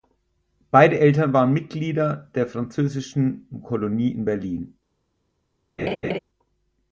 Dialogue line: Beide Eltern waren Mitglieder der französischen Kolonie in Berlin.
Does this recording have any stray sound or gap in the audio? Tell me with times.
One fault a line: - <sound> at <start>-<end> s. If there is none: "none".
- laugh at 5.8-6.2 s